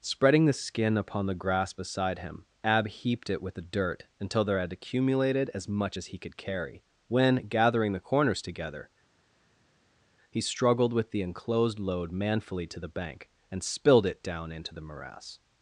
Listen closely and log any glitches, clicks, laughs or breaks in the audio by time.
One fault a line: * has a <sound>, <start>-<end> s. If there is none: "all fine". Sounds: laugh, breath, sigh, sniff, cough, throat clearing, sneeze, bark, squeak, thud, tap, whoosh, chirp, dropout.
all fine